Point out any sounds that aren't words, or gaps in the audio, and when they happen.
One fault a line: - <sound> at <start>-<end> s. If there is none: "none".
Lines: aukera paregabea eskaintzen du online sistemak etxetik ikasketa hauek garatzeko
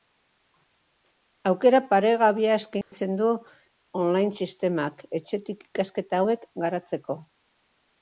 - dropout at 2.8-2.9 s